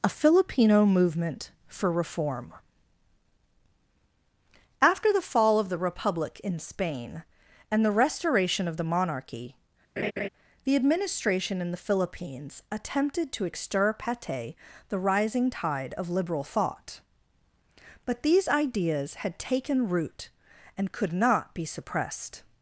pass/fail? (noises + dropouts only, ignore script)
fail